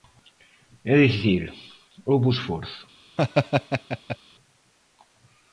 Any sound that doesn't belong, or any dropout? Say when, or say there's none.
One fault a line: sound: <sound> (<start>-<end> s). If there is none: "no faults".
sound: laugh (3.2-4.2 s)